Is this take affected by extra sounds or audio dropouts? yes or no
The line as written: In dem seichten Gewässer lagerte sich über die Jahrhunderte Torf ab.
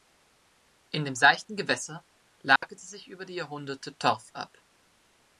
yes